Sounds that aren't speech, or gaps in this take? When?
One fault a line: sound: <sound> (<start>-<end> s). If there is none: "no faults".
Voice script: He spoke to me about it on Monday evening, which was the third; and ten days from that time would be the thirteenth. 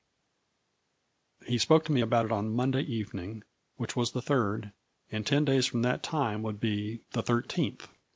no faults